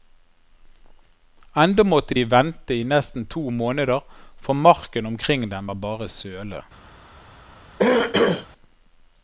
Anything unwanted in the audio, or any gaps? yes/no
yes